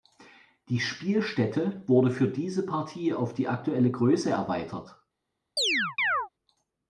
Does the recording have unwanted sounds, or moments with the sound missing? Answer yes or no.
yes